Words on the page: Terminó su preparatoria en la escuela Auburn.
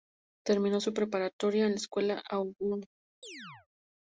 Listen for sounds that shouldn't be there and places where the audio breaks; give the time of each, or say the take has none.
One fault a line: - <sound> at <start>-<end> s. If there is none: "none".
- chirp at 3.2-3.7 s